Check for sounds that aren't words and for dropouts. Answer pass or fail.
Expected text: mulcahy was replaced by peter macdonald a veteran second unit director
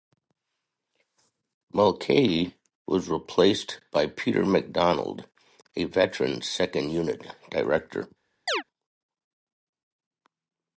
fail